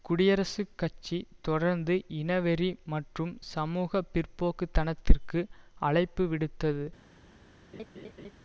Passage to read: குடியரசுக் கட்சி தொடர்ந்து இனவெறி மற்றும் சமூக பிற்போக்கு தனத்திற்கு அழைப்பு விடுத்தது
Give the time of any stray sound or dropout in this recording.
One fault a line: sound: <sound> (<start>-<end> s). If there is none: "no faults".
sound: laugh (7.7-8.3 s)